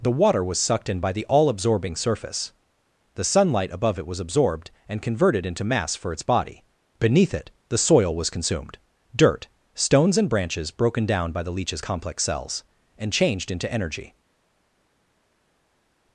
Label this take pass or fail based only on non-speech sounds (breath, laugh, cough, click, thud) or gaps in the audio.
pass